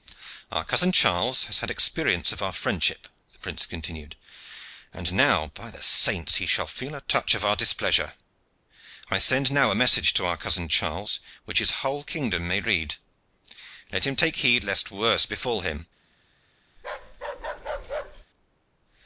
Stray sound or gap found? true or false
true